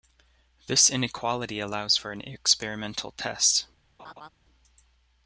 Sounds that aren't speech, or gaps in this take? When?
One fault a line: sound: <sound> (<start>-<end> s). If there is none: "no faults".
sound: laugh (4.0-4.3 s)